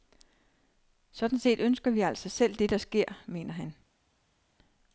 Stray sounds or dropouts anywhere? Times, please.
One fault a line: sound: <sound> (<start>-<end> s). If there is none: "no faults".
no faults